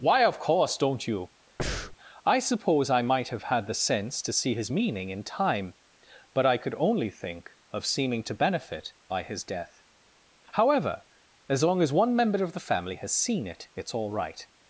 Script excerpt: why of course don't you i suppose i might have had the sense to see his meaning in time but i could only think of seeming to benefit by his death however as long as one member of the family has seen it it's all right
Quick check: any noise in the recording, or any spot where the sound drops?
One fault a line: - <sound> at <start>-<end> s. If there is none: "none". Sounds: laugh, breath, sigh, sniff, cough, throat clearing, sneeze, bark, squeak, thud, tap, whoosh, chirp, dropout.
- breath at 1.6-2.0 s